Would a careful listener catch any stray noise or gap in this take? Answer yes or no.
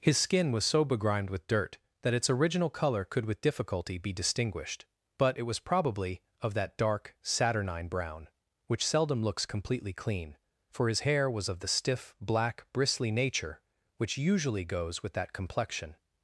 no